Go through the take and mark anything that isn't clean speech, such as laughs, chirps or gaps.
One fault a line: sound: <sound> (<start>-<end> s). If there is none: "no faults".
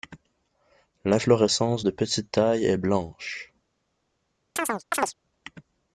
sound: chirp (4.6-5.1 s)